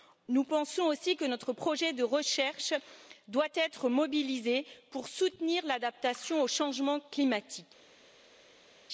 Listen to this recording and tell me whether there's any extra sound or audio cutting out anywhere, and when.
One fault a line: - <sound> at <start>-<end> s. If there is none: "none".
none